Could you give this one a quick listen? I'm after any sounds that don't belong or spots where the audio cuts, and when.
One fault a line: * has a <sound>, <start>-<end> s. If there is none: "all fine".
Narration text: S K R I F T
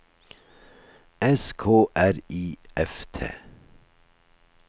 all fine